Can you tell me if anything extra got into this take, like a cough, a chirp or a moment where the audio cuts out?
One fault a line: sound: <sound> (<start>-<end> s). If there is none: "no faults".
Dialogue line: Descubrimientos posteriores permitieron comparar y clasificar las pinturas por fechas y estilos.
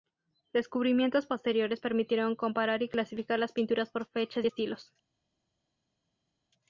no faults